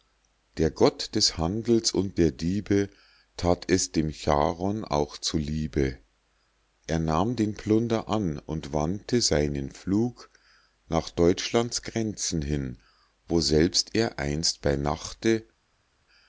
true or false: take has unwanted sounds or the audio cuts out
false